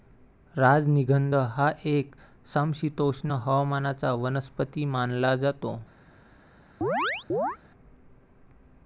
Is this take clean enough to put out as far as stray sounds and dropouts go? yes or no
no